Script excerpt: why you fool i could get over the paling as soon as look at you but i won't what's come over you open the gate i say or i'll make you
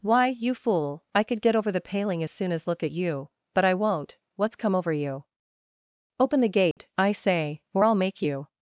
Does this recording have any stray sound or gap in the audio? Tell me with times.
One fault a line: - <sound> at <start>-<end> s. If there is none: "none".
- dropout at 6.7-6.8 s